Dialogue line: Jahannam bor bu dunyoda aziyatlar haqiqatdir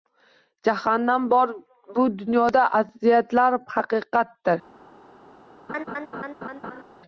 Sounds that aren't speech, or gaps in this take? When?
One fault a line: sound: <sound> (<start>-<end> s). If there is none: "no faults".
sound: laugh (5.7-6.8 s)